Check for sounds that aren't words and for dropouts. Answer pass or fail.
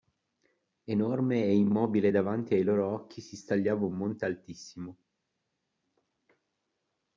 pass